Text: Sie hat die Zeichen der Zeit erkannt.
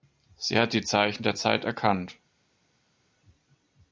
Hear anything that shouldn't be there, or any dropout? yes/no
no